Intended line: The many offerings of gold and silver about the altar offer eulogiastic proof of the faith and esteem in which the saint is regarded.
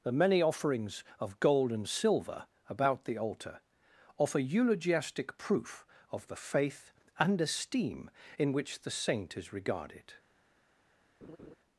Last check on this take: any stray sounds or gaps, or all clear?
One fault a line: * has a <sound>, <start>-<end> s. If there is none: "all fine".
* has a laugh, 11.2-11.5 s